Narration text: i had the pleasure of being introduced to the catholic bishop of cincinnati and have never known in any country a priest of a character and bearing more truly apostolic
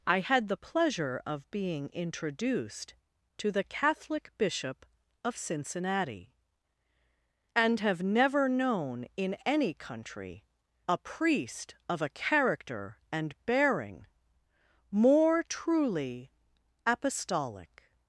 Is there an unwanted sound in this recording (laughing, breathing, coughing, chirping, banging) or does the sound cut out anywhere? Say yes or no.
no